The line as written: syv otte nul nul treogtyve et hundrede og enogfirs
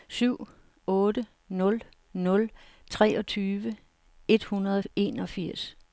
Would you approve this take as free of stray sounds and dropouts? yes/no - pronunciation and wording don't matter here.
yes